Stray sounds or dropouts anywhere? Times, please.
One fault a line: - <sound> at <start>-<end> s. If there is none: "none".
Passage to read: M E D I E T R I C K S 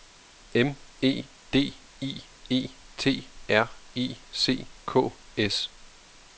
none